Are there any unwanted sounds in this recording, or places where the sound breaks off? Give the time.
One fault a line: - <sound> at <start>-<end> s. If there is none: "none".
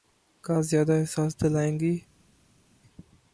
none